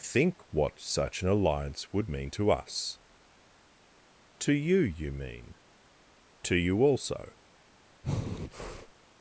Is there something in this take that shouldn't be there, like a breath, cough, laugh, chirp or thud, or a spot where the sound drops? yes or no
yes